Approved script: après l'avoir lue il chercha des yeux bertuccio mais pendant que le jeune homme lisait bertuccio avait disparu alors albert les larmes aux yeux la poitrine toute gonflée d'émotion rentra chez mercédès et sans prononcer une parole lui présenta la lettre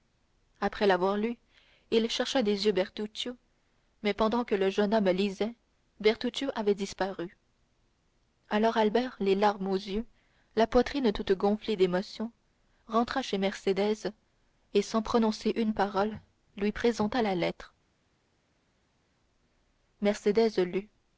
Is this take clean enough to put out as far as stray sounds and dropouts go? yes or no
yes